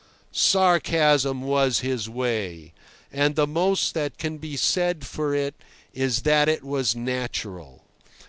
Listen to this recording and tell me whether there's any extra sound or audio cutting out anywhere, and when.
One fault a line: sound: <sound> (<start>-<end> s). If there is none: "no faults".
no faults